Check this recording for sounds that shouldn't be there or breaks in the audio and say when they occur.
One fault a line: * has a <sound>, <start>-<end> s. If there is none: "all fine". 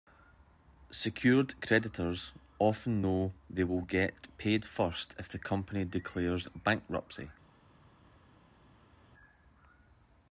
all fine